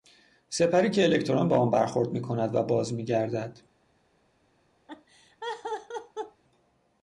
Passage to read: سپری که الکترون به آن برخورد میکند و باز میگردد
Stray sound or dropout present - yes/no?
yes